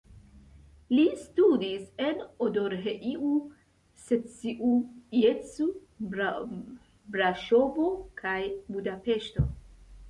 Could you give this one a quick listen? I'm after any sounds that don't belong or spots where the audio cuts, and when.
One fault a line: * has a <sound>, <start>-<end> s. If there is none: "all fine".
all fine